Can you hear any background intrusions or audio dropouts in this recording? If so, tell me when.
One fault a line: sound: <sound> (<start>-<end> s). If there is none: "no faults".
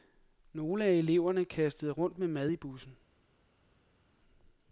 no faults